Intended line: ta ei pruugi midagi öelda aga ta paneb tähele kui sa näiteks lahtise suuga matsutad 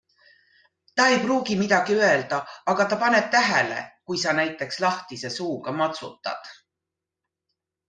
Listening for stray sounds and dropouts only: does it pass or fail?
pass